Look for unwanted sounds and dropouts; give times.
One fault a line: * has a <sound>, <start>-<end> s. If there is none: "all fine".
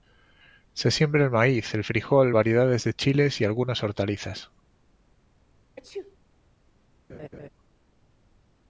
* has a sneeze, 5.8-6.2 s
* has a laugh, 7.1-7.5 s